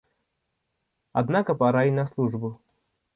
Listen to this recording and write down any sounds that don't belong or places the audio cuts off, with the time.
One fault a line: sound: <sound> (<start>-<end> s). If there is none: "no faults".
no faults